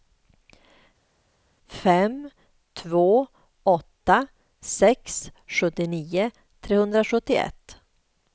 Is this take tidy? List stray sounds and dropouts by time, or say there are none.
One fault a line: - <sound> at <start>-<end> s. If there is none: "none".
none